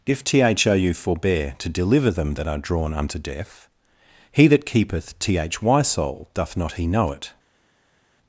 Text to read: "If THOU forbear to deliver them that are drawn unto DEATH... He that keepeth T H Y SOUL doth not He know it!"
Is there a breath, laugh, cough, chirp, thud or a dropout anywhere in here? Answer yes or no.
no